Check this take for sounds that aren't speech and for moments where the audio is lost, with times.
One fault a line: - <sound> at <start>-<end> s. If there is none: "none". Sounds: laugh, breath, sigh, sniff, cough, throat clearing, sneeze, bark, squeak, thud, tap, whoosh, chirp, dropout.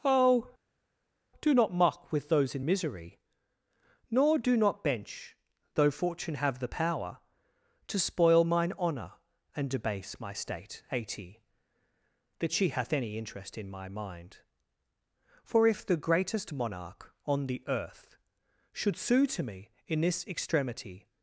none